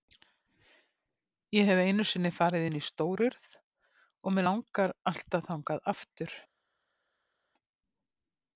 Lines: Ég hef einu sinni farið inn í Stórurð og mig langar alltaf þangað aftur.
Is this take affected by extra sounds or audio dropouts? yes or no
no